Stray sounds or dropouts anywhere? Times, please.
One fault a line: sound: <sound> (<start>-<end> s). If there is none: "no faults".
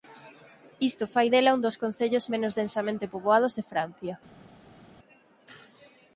no faults